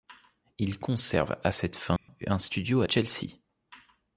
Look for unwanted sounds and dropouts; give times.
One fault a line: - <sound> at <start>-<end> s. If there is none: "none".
- dropout at 2.0-2.1 s